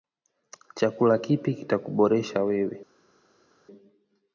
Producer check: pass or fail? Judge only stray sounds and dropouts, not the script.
pass